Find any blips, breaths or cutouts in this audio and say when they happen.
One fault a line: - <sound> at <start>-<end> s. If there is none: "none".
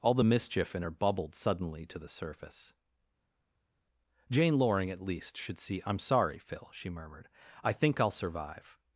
none